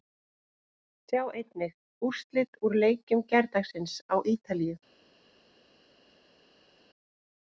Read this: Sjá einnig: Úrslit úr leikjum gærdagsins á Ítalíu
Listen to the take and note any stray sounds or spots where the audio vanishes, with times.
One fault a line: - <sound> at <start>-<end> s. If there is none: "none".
none